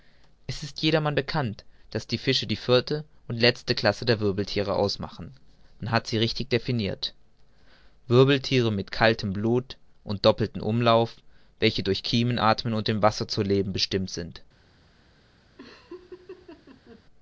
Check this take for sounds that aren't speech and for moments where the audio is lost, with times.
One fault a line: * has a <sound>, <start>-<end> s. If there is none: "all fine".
* has a laugh, 15.6-17.0 s